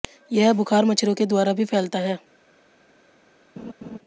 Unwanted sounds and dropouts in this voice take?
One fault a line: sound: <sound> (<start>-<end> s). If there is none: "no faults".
sound: laugh (3.6-4.0 s)